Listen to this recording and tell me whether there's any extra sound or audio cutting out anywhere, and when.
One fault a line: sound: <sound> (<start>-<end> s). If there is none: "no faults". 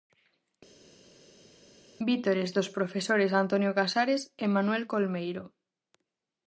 no faults